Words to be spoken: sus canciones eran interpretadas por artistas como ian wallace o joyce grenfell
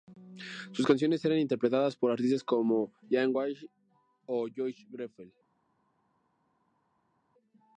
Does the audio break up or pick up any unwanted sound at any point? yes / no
no